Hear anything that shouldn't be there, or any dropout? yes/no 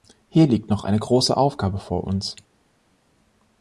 no